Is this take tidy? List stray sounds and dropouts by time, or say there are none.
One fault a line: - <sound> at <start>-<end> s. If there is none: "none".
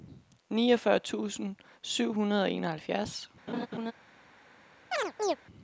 - laugh at 3.5-3.9 s
- chirp at 4.9-5.4 s